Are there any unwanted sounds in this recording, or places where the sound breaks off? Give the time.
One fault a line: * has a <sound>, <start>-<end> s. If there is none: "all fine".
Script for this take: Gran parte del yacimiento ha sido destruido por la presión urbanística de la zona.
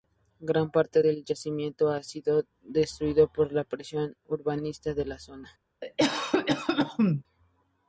* has a cough, 5.8-7.2 s